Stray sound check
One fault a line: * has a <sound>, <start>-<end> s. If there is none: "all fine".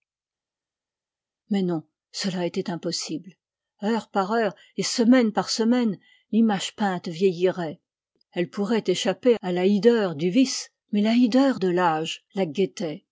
all fine